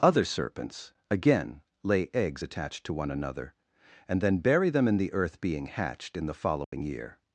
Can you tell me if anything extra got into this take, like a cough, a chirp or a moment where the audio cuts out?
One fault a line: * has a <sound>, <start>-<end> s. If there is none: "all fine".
* has a dropout, 6.6-6.7 s